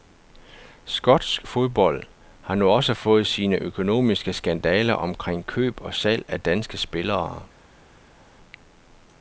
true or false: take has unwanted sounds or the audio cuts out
false